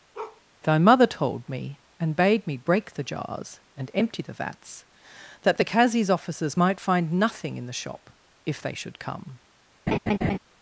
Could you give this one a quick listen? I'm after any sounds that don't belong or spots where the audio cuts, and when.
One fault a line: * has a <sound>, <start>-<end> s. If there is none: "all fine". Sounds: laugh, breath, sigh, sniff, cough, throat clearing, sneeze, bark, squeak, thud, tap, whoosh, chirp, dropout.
* has a bark, 0.1-0.4 s
* has a laugh, 9.9-10.4 s